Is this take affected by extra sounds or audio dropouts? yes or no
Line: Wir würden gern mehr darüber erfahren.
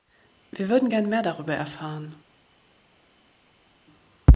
no